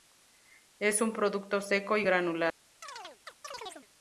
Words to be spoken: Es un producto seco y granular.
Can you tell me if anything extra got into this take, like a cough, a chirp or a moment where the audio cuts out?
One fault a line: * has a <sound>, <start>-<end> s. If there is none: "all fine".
* has a chirp, 2.8-3.9 s